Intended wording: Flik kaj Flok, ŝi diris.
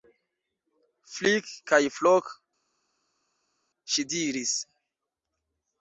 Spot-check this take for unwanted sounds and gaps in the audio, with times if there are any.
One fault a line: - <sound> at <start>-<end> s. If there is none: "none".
none